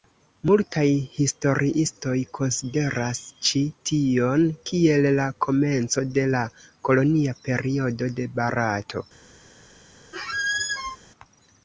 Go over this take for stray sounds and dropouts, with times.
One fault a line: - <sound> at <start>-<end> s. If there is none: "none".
- squeak at 10.1-11.0 s